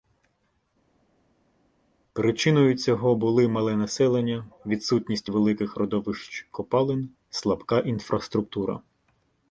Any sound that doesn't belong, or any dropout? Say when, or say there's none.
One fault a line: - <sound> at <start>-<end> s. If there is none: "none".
none